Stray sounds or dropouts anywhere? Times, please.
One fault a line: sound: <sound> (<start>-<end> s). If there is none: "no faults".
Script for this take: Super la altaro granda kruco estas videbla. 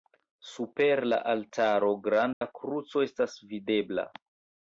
sound: dropout (2.3-2.4 s)